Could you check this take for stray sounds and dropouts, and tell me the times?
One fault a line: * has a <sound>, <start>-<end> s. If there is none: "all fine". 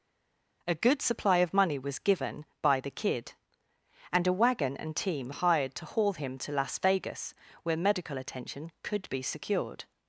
all fine